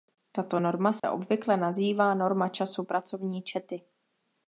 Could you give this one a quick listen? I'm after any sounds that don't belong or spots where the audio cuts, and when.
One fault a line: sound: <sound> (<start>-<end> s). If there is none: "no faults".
sound: dropout (1.0-1.0 s)